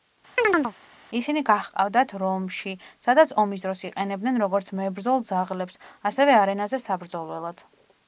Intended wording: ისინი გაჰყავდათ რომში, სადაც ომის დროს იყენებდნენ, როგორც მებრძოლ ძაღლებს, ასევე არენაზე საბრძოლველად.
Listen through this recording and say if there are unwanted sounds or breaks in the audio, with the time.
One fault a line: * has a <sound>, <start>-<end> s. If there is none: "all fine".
* has a chirp, 0.4-0.7 s